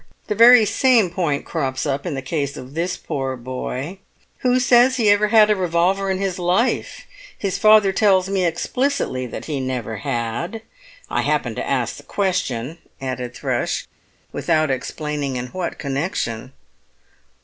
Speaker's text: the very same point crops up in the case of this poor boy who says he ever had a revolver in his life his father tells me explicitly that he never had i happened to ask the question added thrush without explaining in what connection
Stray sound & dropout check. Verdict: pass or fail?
pass